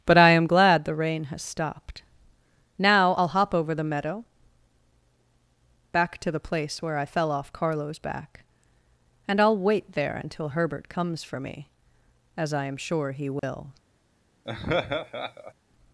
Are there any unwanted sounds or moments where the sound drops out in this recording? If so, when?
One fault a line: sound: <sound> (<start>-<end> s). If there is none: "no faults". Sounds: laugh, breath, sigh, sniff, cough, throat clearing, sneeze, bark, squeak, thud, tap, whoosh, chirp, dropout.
sound: dropout (13.4-13.4 s)
sound: laugh (14.4-15.5 s)